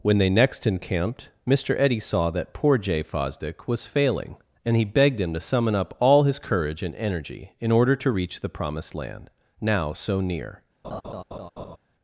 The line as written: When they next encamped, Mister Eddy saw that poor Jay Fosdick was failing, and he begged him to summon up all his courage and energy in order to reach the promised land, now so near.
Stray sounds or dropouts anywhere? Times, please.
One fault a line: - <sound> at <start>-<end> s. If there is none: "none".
- laugh at 10.8-11.8 s